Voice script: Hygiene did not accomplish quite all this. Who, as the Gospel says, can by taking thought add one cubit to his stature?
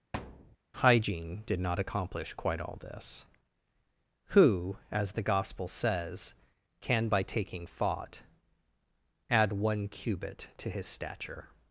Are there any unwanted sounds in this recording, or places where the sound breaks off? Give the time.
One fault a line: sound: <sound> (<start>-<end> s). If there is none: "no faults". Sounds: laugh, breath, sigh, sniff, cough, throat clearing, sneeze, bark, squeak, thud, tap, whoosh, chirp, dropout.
sound: thud (0.1-0.6 s)